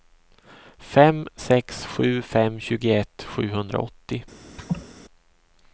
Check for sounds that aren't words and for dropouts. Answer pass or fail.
fail